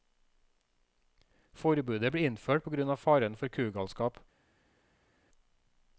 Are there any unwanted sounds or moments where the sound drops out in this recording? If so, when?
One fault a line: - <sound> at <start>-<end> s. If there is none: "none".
none